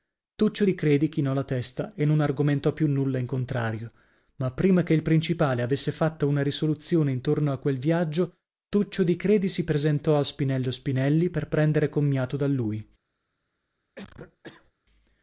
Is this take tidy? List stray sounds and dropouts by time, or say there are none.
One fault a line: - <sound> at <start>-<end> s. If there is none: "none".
- cough at 14.0-14.7 s